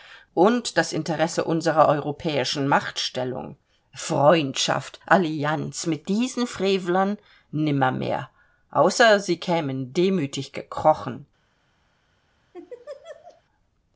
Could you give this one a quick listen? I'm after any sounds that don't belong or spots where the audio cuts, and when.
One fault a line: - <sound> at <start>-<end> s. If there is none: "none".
- laugh at 12.5-13.4 s